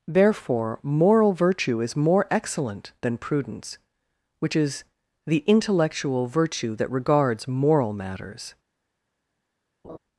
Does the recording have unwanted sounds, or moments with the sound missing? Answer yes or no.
yes